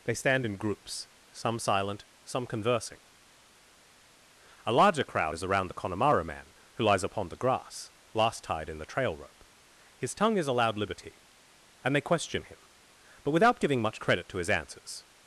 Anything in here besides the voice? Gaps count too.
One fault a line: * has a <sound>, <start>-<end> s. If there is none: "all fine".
all fine